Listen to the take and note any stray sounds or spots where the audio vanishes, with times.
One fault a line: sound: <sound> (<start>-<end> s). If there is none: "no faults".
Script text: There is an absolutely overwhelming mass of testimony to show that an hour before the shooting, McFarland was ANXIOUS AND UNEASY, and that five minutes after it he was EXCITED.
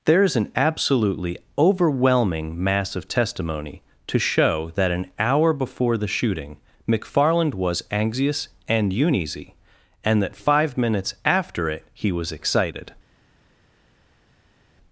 no faults